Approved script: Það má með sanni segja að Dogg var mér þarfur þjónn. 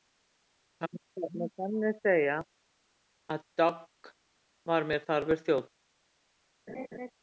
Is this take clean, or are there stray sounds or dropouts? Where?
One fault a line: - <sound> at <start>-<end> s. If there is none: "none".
- laugh at 6.7-7.1 s